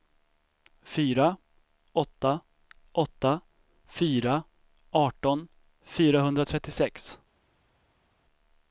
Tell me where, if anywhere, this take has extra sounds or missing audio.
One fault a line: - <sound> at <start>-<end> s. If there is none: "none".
none